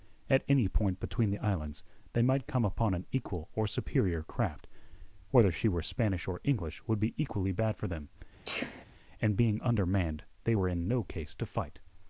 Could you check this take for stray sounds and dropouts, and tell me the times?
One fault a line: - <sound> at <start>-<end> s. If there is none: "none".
- sneeze at 8.5-8.9 s